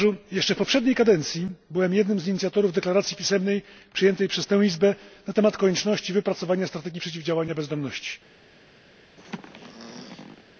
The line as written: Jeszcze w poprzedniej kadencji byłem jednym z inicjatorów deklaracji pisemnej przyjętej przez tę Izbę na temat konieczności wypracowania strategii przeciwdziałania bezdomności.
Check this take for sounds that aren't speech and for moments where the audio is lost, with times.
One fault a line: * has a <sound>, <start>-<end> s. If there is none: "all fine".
* has a throat clearing, 9.2-10.4 s